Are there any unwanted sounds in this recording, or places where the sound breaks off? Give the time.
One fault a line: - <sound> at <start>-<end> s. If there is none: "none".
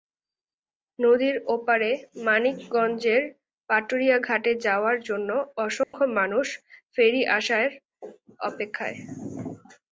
- dropout at 5.8-5.9 s